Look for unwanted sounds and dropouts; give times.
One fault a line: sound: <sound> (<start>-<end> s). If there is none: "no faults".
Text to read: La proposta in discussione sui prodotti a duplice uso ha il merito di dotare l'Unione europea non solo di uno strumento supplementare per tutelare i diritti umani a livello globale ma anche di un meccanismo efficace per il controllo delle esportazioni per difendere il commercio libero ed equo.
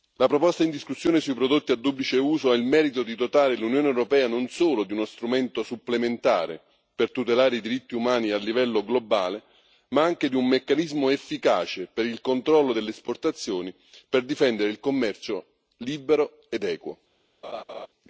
sound: laugh (17.4-17.9 s)